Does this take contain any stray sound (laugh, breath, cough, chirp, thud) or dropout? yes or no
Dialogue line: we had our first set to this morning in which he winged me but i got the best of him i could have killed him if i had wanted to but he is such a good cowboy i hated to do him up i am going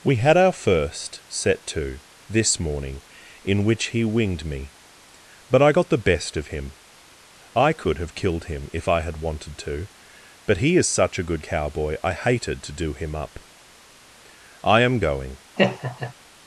yes